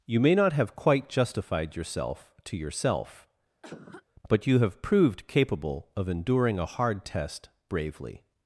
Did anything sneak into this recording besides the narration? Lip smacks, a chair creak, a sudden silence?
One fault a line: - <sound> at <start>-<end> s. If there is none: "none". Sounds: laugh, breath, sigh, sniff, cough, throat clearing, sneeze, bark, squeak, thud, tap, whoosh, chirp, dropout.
- cough at 3.6-4.1 s